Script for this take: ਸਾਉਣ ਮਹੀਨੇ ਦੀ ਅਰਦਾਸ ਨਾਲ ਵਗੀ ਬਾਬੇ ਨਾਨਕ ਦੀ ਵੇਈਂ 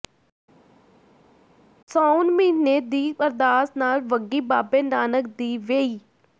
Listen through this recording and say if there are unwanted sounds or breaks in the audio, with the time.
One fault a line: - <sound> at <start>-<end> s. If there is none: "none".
none